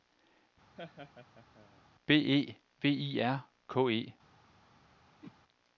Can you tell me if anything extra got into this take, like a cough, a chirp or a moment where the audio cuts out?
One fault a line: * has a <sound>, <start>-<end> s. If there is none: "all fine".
* has a laugh, 0.8-1.8 s
* has a whoosh, 5.2-5.4 s